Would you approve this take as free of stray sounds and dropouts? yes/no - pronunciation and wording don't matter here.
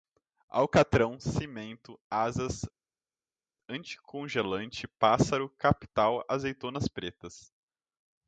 yes